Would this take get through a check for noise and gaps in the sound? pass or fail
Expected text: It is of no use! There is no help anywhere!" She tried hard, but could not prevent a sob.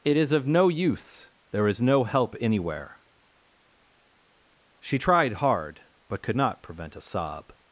pass